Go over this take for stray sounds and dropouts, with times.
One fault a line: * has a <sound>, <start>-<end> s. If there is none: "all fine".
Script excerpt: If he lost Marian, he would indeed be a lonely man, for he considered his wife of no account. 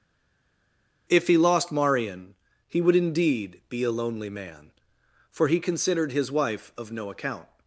all fine